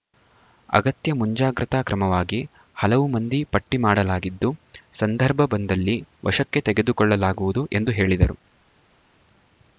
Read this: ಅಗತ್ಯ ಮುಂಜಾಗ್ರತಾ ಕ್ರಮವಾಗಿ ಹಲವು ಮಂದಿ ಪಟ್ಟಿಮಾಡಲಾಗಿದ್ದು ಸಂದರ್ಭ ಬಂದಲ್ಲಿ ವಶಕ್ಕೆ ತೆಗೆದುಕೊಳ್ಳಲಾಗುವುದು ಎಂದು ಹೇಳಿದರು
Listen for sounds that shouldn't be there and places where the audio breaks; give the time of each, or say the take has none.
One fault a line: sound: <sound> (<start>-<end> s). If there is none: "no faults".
no faults